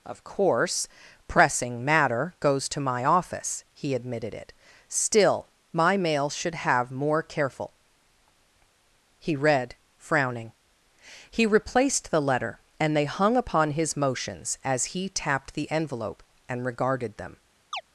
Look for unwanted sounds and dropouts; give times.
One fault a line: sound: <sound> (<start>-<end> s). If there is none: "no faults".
sound: chirp (17.7-17.8 s)